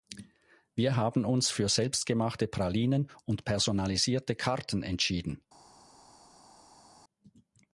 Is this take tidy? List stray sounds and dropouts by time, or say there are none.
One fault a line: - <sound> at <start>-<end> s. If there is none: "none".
none